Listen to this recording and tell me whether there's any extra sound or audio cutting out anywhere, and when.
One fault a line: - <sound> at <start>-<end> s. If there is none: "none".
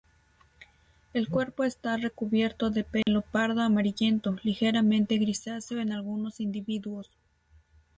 - dropout at 3.0-3.1 s